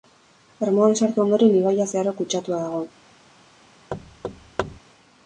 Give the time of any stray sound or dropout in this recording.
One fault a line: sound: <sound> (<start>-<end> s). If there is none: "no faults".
sound: thud (3.9-4.8 s)